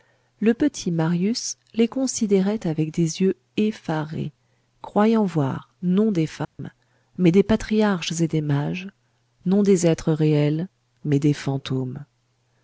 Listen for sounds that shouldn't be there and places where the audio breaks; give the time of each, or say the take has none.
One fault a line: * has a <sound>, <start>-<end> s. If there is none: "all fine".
* has a dropout, 6.4-6.6 s